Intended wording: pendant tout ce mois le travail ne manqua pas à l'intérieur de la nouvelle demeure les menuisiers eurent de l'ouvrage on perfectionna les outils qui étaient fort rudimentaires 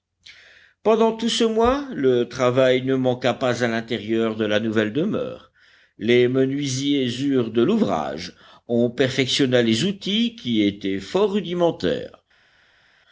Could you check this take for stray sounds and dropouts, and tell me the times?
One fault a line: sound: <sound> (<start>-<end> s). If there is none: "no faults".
no faults